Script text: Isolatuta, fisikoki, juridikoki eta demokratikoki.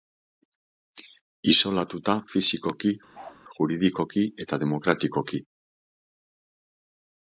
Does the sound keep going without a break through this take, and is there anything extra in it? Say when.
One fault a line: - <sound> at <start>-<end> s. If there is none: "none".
- bark at 3.1-3.4 s